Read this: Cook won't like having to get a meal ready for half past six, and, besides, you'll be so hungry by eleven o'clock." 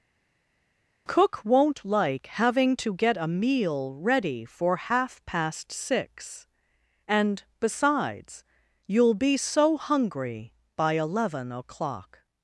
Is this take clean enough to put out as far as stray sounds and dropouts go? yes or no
yes